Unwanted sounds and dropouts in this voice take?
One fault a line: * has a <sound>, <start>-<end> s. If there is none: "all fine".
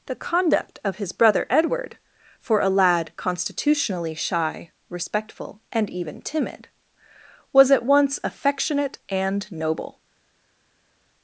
all fine